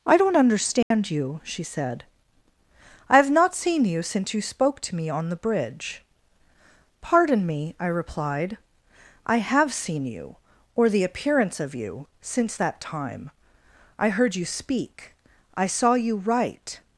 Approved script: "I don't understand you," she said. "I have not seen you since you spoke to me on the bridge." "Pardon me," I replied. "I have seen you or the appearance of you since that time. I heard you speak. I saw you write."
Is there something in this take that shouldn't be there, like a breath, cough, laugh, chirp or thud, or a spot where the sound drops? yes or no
yes